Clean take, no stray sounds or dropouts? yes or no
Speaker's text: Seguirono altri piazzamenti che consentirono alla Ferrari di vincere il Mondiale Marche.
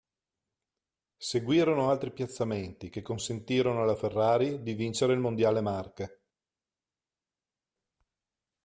yes